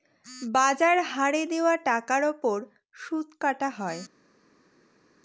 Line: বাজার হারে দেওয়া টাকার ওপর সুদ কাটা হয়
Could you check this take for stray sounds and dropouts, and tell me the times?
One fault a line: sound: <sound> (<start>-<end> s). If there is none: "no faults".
no faults